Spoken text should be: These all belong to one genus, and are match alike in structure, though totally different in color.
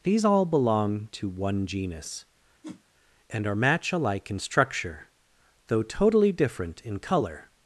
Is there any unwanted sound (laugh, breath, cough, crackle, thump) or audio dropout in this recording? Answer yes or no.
yes